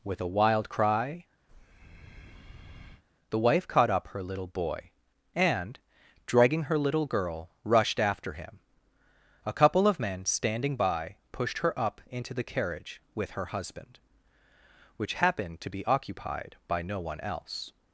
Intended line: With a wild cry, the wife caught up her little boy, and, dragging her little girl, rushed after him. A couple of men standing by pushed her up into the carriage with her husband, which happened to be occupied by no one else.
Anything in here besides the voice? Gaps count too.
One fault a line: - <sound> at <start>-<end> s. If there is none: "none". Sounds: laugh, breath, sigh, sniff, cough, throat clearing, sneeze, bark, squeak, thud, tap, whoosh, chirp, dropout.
- breath at 1.5-3.0 s